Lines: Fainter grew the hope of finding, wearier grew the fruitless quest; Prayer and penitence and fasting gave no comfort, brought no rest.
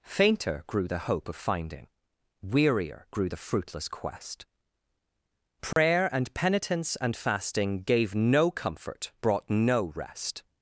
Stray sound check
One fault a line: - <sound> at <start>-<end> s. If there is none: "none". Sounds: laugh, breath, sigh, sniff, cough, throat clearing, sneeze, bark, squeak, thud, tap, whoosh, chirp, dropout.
- dropout at 5.7-5.8 s